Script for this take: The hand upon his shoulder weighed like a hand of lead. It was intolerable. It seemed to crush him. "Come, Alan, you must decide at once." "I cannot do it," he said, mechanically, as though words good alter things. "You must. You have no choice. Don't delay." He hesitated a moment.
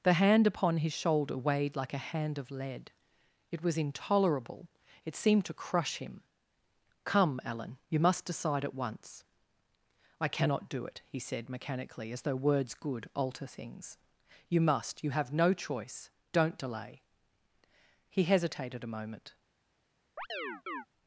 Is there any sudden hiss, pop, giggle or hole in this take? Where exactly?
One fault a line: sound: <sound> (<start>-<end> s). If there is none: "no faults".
sound: chirp (20.2-20.9 s)